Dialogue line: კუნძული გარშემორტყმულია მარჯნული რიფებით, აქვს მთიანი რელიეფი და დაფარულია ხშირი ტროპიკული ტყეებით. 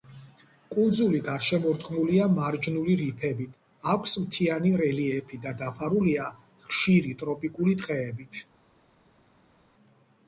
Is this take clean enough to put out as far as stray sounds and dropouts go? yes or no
yes